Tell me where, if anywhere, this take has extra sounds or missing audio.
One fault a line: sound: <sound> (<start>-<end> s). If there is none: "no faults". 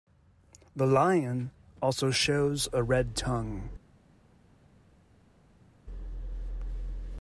no faults